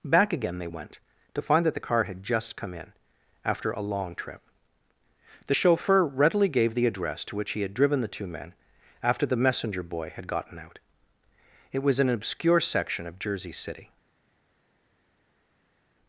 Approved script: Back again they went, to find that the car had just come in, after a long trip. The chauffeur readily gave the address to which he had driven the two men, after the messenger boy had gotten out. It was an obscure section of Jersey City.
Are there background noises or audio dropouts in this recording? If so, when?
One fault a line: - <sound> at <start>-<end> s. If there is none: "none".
none